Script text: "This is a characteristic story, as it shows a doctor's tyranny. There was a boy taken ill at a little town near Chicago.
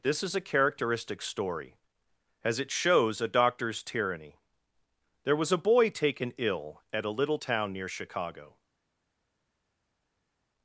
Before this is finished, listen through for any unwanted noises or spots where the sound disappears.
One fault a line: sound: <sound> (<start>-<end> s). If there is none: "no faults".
no faults